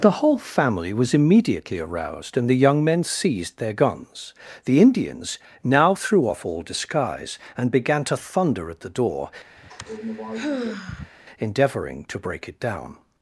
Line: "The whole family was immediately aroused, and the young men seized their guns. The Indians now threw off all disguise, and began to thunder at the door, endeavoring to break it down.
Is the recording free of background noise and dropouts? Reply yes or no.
no